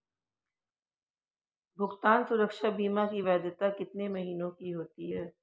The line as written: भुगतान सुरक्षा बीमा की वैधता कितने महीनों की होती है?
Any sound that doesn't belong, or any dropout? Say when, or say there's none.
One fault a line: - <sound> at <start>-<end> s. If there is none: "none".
none